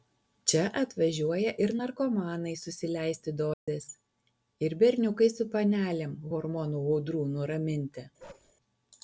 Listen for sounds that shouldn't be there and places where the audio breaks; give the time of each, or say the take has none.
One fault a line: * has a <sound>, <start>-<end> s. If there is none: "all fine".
* has a dropout, 3.5-3.7 s
* has a bark, 8.2-8.5 s